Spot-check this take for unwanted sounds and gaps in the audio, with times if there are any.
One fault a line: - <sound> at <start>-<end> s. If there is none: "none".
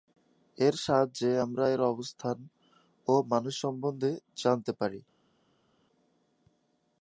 none